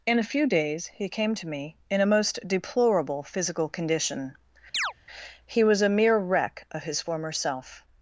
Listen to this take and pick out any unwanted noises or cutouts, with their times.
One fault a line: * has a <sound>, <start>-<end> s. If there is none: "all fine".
* has a chirp, 4.7-4.9 s